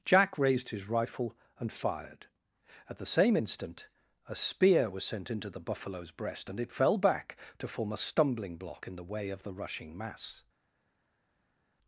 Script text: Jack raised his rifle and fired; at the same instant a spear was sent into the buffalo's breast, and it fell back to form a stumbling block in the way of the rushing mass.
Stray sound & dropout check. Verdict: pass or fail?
pass